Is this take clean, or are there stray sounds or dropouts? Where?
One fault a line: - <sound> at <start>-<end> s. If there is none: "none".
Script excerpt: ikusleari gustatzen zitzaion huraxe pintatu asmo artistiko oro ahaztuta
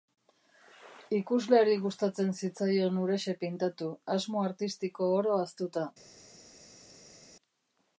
none